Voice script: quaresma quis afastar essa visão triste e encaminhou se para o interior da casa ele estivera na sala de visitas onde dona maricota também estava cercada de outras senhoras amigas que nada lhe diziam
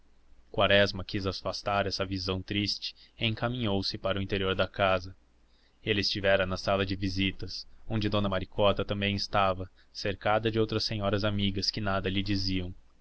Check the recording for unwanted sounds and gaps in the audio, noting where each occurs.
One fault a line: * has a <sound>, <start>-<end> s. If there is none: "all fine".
all fine